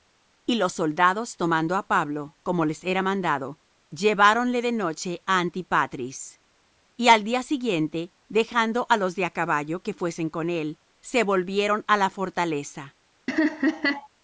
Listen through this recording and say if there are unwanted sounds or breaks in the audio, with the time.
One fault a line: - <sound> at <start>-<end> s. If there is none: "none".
- laugh at 13.3-14.1 s